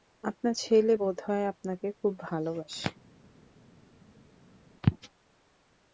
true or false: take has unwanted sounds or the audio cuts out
false